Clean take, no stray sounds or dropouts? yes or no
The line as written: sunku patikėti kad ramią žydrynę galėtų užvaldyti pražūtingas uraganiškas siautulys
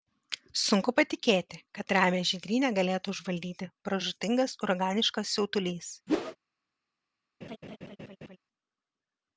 no